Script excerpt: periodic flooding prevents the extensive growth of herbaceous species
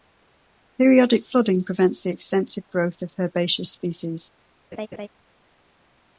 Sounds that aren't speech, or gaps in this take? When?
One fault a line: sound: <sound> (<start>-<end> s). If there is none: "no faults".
sound: laugh (4.7-5.1 s)